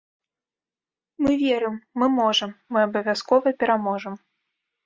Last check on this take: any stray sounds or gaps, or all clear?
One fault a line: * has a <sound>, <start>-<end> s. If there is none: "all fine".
all fine